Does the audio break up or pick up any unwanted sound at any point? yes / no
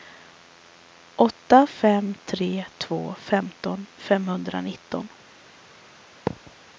yes